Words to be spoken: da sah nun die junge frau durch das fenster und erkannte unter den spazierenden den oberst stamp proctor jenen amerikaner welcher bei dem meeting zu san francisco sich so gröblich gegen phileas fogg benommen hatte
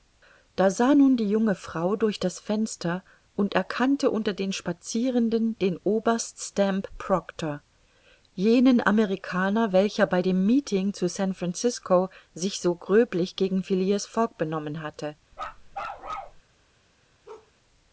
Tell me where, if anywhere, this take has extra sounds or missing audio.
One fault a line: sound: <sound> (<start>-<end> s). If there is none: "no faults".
sound: bark (15.3-16.4 s)
sound: bark (17.3-17.5 s)